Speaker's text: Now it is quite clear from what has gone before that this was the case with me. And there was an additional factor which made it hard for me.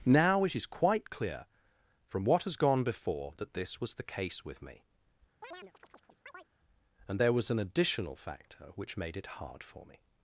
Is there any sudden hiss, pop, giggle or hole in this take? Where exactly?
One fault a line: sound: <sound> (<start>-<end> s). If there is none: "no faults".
sound: chirp (5.4-6.5 s)